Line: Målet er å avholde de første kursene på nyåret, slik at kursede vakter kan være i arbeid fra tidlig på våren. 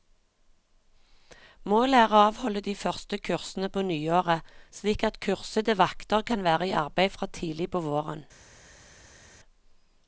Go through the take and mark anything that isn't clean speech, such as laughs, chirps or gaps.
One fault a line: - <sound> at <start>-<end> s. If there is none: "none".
none